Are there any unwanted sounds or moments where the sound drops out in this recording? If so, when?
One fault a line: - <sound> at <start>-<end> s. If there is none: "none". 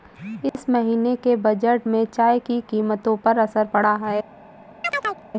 - dropout at 0.5-0.5 s
- chirp at 4.8-5.2 s